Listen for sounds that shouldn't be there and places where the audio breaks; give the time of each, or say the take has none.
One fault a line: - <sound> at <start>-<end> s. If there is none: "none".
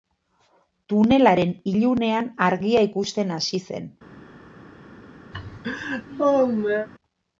- laugh at 5.3-6.9 s